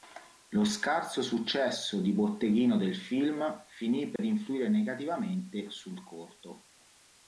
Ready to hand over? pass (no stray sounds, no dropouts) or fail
fail